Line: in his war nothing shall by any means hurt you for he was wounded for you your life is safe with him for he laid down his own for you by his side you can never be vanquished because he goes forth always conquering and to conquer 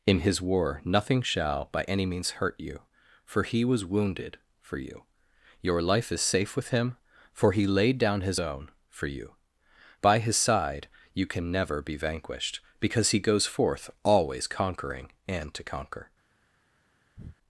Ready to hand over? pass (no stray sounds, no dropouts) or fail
fail